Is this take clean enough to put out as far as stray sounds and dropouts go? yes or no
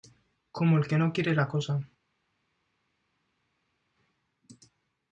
yes